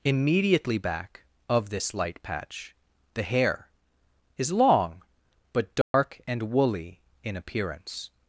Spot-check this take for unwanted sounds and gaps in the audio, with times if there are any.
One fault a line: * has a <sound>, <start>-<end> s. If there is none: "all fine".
* has a dropout, 5.8-5.9 s